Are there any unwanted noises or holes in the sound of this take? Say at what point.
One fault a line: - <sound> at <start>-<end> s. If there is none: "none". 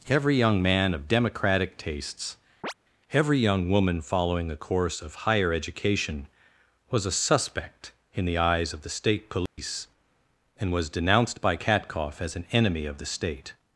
- chirp at 2.6-2.7 s
- dropout at 9.5-9.6 s